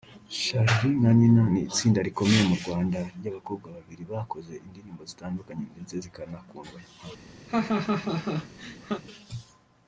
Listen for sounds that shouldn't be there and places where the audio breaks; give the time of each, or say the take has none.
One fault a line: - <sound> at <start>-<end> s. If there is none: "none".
- laugh at 7.5-9.0 s